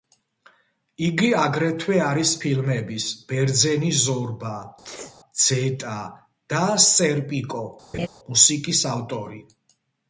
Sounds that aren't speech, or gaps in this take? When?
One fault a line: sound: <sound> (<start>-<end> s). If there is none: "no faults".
sound: sneeze (4.8-5.2 s)
sound: laugh (7.9-8.1 s)